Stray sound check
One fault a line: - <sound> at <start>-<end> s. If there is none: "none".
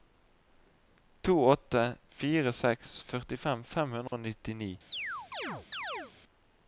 - dropout at 4.1-4.1 s
- chirp at 4.9-6.1 s